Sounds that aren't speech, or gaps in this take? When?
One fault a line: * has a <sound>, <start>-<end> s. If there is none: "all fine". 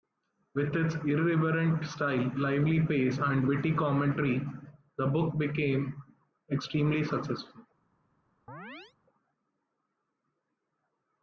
* has a chirp, 8.5-8.9 s